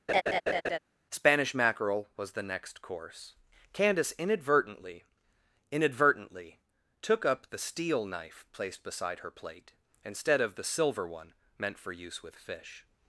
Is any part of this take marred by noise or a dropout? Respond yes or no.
yes